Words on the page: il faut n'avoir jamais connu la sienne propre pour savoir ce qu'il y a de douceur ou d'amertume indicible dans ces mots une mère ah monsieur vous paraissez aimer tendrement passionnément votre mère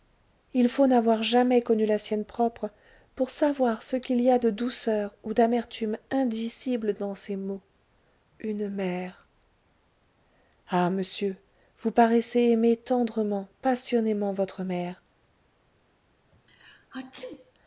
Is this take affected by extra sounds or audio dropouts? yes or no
yes